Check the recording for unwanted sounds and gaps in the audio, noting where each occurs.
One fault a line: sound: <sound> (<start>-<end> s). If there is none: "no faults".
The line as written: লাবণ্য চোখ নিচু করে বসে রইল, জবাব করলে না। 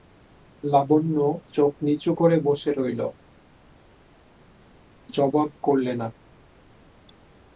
no faults